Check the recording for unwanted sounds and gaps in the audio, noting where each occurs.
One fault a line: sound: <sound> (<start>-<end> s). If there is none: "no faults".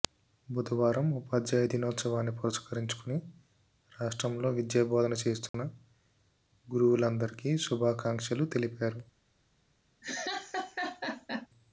sound: dropout (5.5-5.5 s)
sound: laugh (10.0-11.5 s)